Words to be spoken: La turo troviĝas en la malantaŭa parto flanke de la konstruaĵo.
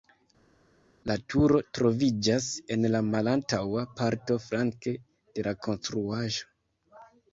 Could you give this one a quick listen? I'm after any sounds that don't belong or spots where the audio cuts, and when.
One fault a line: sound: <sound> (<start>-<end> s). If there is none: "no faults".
no faults